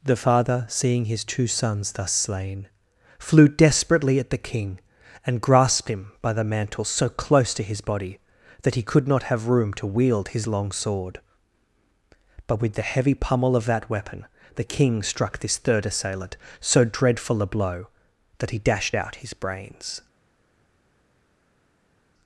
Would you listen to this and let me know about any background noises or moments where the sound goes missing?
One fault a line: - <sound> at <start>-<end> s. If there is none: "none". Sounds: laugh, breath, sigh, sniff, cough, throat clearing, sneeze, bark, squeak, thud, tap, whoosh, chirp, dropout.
none